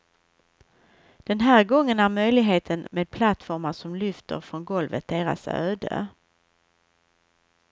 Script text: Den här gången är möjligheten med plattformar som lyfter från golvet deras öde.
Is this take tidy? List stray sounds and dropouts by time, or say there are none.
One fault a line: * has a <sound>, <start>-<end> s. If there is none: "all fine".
all fine